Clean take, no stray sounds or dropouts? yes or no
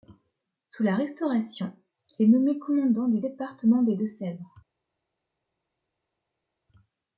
yes